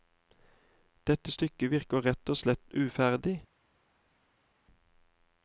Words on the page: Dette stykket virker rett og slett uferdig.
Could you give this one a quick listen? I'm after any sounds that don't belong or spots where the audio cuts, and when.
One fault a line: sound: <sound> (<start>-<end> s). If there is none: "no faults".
no faults